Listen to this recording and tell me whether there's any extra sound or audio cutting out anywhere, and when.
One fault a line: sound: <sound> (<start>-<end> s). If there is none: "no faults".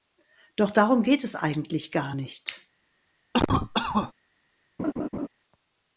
sound: cough (3.3-4.1 s)
sound: laugh (4.8-5.3 s)